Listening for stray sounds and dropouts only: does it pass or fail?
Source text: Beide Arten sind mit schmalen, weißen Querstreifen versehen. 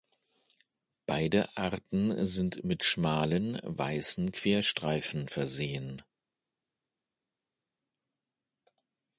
pass